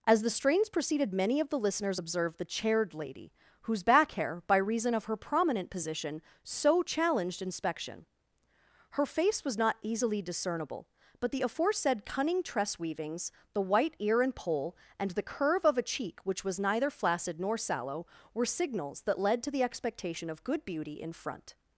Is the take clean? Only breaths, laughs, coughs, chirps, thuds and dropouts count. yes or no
yes